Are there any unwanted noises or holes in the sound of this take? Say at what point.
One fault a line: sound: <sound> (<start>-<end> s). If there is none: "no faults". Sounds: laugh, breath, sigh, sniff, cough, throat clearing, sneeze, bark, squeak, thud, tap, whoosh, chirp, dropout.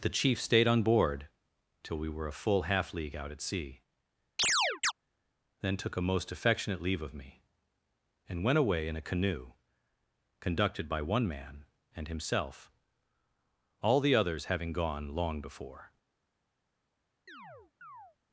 sound: chirp (4.4-4.9 s)
sound: chirp (17.3-18.2 s)